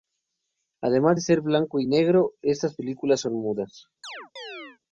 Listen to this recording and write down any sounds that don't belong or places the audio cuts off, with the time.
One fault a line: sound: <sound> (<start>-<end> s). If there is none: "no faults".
sound: chirp (4.0-4.8 s)